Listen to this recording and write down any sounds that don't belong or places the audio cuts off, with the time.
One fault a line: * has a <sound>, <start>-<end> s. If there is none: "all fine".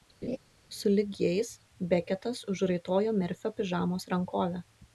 * has a laugh, 0.2-0.4 s